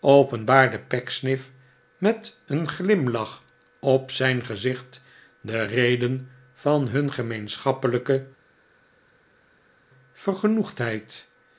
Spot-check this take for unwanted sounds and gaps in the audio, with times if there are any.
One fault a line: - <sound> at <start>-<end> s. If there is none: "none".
none